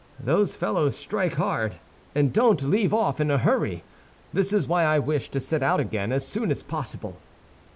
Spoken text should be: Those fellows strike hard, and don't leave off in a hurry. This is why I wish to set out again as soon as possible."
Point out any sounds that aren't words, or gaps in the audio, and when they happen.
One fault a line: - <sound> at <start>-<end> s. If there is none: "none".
none